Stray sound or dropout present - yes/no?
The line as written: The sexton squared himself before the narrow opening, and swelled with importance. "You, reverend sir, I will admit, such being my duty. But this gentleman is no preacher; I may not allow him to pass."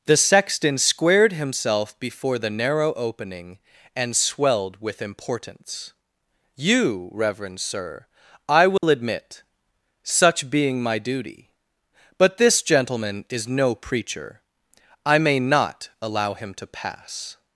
yes